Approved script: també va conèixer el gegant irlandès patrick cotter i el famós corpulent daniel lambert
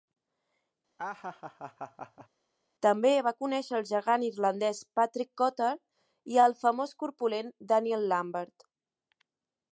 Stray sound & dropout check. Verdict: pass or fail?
fail